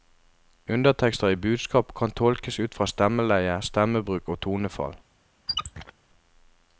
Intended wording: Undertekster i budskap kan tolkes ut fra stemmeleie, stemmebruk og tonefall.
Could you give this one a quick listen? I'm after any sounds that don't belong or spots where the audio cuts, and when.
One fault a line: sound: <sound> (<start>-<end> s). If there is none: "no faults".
sound: squeak (5.5-5.9 s)